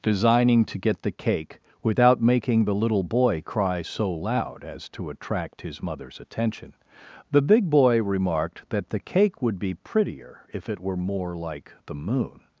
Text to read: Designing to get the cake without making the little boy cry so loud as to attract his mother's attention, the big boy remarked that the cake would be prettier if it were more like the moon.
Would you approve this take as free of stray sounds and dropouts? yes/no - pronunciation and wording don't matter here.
yes